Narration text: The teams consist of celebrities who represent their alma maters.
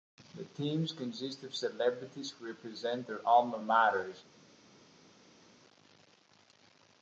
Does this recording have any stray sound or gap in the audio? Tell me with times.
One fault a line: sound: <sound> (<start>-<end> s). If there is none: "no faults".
no faults